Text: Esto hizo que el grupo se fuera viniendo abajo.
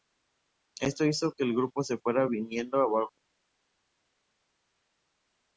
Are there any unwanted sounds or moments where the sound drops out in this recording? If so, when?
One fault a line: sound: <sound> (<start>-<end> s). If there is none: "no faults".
no faults